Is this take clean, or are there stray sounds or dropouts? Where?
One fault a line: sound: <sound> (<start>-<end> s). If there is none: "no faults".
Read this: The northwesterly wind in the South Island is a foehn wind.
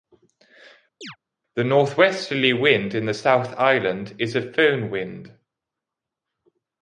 sound: chirp (1.0-1.2 s)